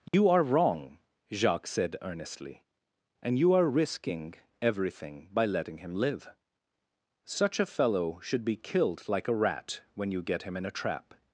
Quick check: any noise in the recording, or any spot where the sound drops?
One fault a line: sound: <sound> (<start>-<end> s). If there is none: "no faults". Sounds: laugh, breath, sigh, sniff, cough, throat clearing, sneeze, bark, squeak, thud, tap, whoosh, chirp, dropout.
sound: dropout (0.1-0.1 s)